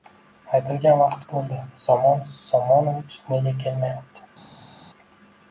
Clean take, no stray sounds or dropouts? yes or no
yes